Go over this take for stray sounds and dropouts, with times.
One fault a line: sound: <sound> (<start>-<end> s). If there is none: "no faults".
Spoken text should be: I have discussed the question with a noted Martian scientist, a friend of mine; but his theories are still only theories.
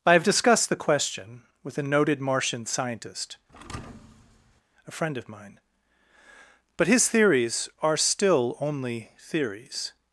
sound: thud (3.5-4.6 s)